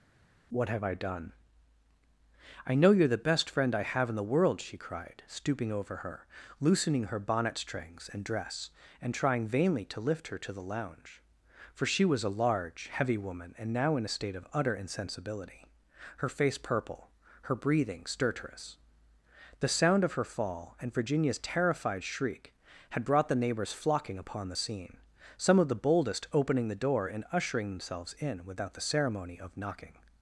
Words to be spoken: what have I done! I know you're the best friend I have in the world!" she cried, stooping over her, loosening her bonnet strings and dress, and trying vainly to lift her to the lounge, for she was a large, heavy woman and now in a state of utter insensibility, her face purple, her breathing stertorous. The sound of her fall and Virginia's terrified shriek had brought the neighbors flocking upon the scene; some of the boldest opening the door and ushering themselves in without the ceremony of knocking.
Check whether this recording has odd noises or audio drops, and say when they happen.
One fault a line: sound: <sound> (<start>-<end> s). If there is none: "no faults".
no faults